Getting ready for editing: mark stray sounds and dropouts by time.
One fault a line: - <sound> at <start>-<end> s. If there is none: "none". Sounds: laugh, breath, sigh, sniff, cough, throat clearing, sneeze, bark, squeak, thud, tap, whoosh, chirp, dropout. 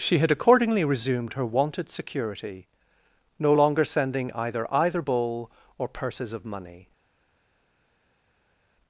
none